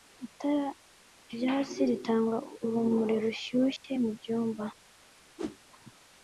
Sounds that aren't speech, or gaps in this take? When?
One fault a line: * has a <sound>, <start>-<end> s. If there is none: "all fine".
* has a dropout, 3.8-3.8 s
* has a whoosh, 5.4-5.6 s